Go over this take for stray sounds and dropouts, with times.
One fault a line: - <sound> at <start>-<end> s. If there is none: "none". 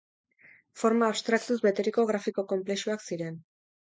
none